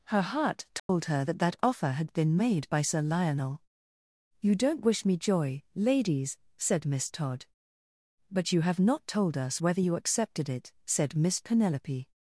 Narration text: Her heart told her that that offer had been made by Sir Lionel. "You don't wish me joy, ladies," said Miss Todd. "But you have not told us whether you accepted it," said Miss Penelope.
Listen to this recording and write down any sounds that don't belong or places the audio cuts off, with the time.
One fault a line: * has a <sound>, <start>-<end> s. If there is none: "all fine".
* has a dropout, 0.8-0.9 s